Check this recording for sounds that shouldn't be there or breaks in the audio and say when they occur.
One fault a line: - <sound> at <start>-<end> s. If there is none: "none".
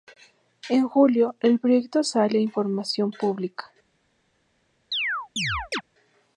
- chirp at 4.9-5.8 s